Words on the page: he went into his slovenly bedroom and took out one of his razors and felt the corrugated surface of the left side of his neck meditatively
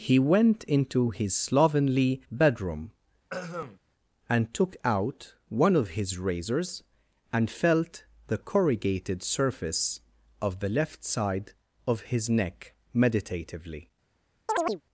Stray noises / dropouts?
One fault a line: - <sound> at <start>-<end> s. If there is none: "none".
- throat clearing at 3.3-3.8 s
- chirp at 14.5-14.8 s